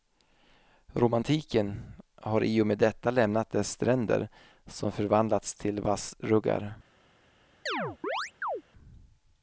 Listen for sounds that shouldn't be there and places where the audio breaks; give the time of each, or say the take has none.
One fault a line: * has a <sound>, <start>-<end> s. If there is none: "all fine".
* has a chirp, 7.7-8.6 s